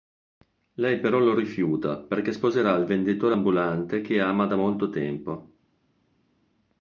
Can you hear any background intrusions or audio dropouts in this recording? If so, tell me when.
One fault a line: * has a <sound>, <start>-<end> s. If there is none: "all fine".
all fine